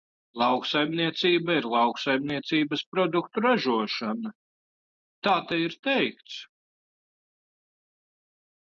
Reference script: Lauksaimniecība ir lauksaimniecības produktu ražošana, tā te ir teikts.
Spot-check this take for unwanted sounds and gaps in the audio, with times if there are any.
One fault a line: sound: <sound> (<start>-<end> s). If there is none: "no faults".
no faults